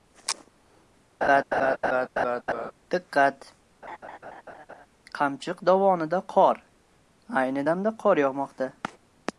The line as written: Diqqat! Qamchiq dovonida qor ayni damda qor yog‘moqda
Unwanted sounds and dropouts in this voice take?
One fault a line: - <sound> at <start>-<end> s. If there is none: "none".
- laugh at 1.2-2.7 s
- laugh at 3.8-4.9 s